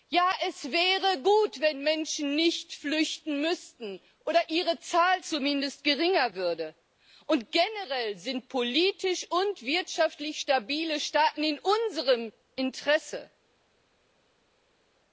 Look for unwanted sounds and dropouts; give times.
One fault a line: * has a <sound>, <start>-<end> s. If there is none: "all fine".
all fine